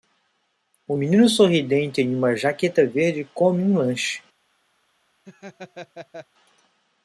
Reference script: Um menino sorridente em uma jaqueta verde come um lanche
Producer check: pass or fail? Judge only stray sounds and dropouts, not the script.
fail